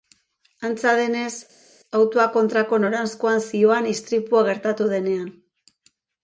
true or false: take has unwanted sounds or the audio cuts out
false